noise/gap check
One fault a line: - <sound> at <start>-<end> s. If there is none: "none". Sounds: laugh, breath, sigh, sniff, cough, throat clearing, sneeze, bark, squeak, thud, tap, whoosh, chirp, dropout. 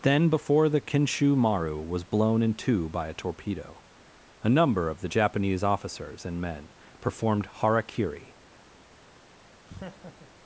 - laugh at 9.7-10.3 s